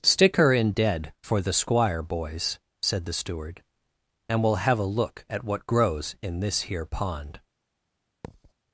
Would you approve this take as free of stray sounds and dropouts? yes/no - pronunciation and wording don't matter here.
no